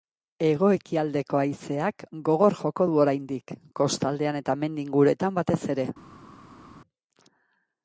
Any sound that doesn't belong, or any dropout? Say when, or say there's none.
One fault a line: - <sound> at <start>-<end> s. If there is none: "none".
none